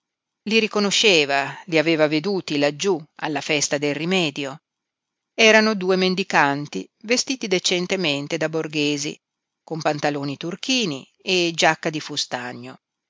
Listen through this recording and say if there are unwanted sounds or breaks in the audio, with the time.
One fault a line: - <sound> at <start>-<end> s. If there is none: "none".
none